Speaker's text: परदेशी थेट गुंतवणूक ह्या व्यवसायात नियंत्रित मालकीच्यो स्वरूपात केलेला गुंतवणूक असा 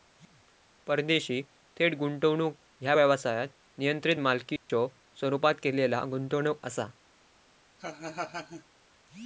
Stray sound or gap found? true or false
true